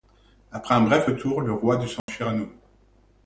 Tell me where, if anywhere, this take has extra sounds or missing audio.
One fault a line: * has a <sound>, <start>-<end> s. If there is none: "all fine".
* has a dropout, 2.0-2.1 s